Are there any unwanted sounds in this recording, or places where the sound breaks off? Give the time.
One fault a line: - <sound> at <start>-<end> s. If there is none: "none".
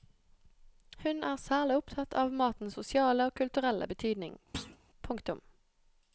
- thud at 4.5-4.8 s